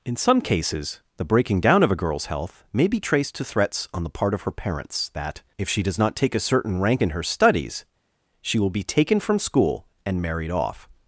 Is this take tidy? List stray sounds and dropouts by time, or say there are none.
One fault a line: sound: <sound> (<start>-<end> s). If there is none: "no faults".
no faults